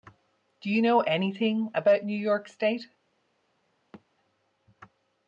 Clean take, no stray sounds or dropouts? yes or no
no